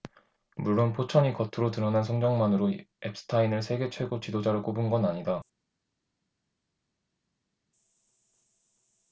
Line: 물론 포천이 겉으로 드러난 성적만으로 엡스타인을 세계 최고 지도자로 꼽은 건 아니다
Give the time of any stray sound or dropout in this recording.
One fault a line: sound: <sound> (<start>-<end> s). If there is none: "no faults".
no faults